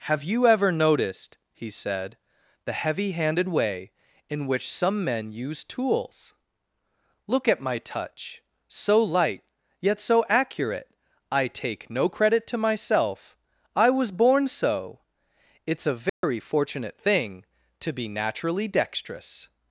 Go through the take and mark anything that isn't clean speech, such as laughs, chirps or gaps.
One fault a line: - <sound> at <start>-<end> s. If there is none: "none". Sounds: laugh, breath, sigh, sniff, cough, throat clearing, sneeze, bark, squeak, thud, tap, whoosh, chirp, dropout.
- dropout at 16.1-16.2 s